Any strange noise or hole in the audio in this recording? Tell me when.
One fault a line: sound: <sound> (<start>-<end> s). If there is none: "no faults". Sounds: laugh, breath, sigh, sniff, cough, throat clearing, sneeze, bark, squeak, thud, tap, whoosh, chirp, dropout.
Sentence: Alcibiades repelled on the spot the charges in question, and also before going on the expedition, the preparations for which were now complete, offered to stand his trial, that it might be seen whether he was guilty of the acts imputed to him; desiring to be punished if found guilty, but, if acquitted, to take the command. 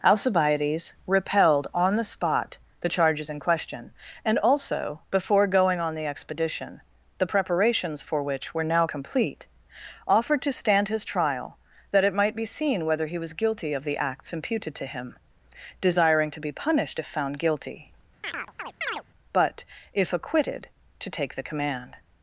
sound: chirp (18.2-19.0 s)